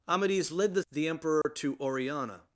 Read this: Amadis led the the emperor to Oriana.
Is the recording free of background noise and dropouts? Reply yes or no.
no